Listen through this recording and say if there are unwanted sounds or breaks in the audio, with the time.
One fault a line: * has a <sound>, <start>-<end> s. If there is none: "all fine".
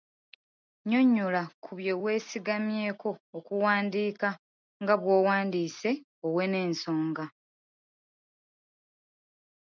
all fine